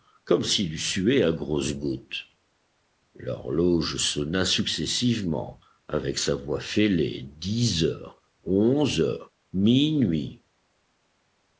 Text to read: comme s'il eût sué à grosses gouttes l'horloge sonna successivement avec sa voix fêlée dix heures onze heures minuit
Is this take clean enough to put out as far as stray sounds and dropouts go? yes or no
yes